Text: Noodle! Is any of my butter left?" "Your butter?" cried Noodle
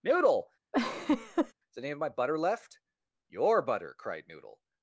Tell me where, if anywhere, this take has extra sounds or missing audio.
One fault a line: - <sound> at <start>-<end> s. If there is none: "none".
- laugh at 0.7-1.5 s